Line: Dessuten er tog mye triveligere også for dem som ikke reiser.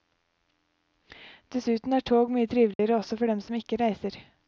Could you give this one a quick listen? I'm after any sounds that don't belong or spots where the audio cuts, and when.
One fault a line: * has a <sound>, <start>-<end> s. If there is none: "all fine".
* has a dropout, 2.7-2.8 s